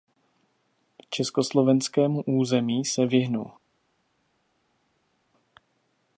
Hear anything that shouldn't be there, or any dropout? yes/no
no